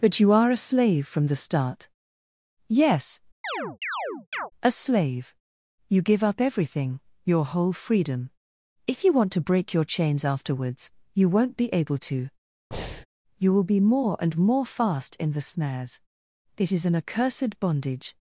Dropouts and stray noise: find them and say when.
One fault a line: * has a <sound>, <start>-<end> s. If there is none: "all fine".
* has a chirp, 3.4-4.5 s
* has a breath, 12.7-13.1 s